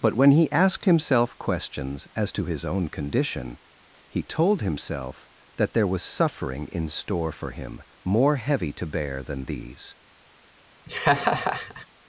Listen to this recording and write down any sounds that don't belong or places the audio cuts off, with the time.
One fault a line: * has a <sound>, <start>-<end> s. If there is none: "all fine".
* has a laugh, 10.9-11.9 s